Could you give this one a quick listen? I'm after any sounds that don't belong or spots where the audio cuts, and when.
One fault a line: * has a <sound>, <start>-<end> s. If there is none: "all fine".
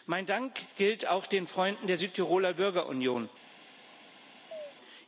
* has a chirp, 4.5-4.7 s